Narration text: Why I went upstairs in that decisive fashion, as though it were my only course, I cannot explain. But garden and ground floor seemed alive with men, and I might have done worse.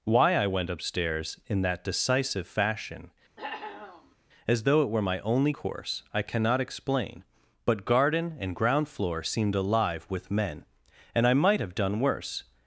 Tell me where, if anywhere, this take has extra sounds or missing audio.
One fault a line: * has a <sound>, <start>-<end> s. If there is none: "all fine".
* has a cough, 3.4-4.2 s